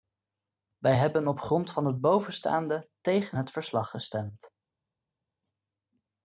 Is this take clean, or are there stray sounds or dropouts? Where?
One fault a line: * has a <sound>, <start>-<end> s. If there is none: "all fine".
all fine